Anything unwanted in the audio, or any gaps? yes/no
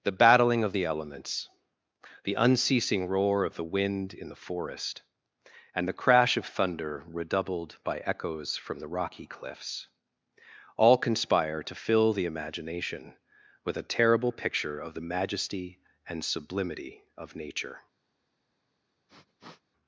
yes